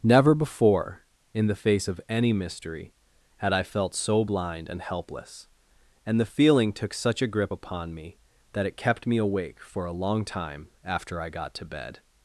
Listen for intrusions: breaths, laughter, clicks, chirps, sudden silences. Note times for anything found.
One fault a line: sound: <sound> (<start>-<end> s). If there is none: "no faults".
no faults